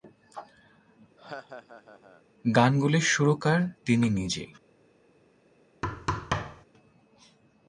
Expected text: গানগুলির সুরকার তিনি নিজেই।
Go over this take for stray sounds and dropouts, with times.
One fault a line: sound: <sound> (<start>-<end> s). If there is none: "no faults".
sound: laugh (1.2-2.2 s)
sound: thud (5.8-6.7 s)